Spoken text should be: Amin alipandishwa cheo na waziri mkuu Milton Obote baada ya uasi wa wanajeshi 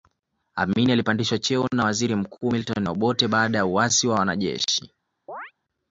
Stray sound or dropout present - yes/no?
yes